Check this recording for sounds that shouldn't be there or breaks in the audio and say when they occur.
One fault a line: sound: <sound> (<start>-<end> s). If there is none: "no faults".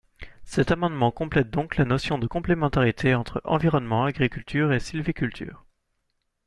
no faults